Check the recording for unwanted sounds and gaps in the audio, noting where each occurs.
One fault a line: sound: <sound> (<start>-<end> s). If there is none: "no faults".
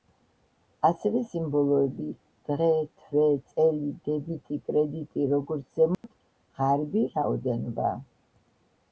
sound: dropout (5.9-6.0 s)